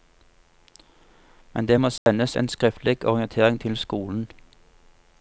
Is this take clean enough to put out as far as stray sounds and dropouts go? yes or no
no